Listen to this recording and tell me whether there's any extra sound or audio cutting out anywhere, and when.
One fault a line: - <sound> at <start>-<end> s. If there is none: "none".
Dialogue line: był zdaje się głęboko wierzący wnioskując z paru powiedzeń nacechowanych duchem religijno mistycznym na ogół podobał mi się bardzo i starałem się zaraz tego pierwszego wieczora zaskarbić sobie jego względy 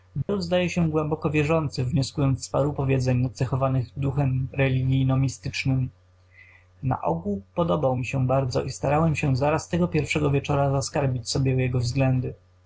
- dropout at 0.2-0.3 s